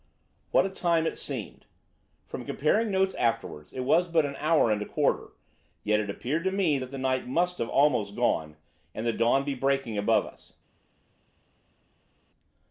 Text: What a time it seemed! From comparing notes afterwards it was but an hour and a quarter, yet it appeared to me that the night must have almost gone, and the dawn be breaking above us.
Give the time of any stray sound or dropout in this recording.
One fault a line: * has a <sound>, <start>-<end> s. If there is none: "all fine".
all fine